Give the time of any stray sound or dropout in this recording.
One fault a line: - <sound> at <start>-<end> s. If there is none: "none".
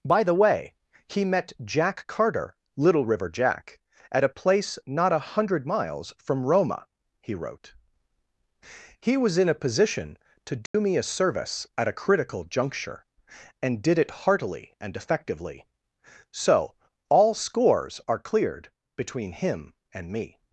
- dropout at 10.7-10.7 s